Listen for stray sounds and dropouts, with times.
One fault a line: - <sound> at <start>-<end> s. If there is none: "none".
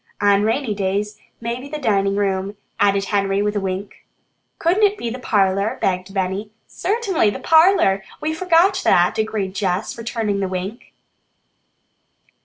none